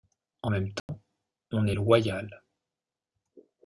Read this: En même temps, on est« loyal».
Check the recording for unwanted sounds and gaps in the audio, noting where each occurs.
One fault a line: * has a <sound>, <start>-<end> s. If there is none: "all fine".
* has a dropout, 0.8-0.9 s